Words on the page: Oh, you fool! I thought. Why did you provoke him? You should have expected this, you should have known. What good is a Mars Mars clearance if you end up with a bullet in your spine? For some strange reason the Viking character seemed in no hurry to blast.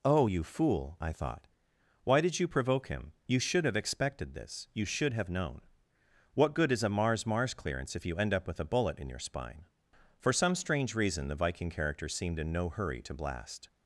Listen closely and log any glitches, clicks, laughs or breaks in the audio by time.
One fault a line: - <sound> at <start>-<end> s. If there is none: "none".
none